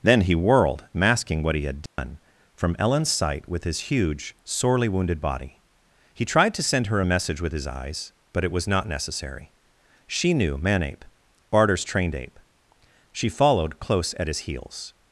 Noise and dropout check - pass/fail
fail